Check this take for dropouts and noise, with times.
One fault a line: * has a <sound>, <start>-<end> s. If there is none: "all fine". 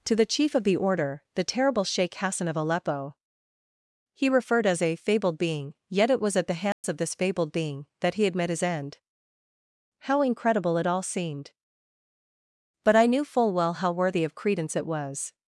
* has a dropout, 6.7-6.8 s